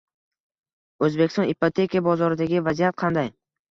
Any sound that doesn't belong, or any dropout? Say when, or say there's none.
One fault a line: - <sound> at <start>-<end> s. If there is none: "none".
none